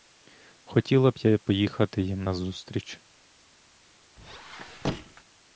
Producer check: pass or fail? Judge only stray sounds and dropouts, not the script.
fail